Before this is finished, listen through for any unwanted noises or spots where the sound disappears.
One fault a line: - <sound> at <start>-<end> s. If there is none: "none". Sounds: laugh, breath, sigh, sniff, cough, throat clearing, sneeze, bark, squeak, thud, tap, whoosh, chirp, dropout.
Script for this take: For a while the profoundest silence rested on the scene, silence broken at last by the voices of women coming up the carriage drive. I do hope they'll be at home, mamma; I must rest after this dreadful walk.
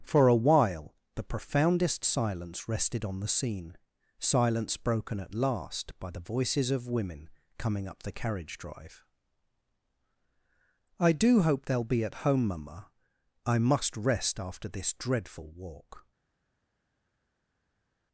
none